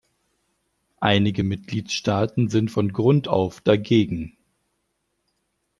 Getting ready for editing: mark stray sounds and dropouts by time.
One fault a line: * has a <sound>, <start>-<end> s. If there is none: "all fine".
all fine